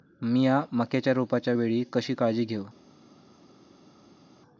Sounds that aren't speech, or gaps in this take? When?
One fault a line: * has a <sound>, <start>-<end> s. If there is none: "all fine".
all fine